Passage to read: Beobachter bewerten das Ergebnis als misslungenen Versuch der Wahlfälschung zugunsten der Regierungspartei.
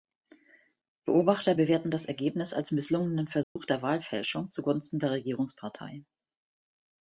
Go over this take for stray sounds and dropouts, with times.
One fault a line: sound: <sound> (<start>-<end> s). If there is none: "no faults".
sound: dropout (3.4-3.6 s)